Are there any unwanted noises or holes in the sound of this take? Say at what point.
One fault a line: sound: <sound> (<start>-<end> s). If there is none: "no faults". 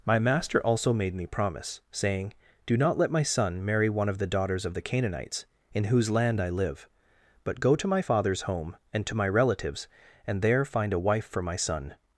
no faults